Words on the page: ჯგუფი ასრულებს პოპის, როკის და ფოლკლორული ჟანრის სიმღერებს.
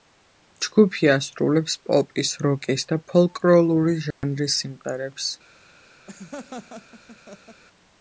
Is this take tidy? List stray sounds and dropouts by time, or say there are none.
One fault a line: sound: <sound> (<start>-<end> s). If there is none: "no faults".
sound: dropout (4.1-4.2 s)
sound: laugh (6.1-7.6 s)